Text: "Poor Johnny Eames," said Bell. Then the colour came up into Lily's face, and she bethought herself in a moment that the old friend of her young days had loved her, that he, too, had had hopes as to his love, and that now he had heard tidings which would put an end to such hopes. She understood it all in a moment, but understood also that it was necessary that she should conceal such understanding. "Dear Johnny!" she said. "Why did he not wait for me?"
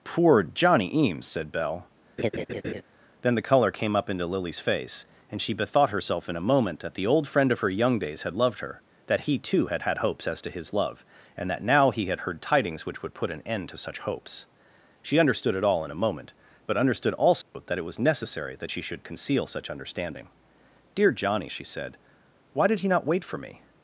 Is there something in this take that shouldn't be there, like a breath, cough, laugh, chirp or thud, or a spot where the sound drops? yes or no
yes